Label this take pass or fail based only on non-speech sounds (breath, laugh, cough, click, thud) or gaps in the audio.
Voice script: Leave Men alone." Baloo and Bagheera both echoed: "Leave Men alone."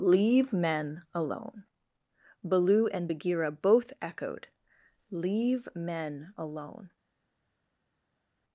pass